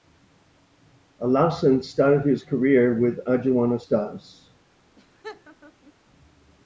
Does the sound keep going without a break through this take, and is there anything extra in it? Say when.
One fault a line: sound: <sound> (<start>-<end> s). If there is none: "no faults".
sound: laugh (5.0-5.9 s)